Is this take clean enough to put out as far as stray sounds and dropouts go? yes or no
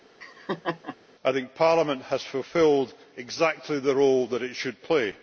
no